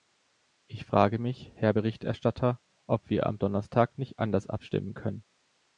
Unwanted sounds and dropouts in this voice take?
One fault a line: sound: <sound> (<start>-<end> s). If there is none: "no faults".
no faults